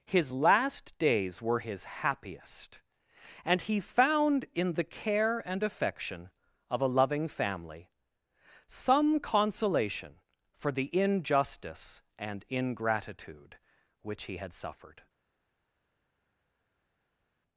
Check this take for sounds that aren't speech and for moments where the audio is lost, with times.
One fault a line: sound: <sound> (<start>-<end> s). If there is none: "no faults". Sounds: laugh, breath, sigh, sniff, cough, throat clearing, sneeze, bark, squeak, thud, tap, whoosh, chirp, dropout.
no faults